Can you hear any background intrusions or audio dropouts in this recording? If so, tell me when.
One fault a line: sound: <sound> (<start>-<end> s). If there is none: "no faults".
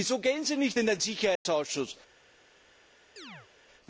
sound: dropout (1.4-1.5 s)
sound: chirp (3.2-3.5 s)